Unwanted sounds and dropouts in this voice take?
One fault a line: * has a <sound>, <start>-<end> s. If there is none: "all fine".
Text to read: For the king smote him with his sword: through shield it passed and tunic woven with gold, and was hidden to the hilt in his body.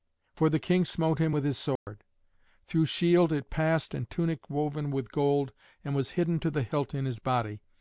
* has a dropout, 1.8-1.9 s